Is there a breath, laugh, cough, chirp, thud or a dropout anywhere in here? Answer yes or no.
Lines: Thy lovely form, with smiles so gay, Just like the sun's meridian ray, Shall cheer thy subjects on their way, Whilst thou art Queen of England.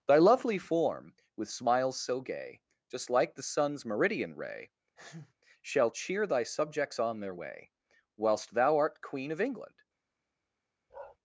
yes